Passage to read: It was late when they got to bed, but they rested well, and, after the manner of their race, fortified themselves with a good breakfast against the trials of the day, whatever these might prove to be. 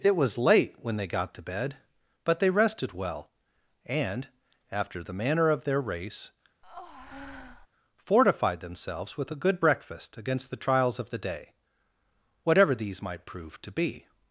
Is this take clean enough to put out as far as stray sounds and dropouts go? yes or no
no